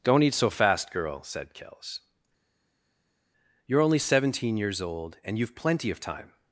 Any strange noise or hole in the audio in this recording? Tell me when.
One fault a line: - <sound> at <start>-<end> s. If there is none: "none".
none